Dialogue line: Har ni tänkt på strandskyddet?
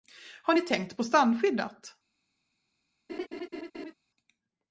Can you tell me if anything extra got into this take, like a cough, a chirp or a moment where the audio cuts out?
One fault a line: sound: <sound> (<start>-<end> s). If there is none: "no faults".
sound: laugh (3.1-3.9 s)